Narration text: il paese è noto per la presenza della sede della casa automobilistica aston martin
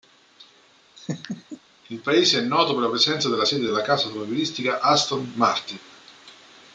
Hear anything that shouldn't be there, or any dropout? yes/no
yes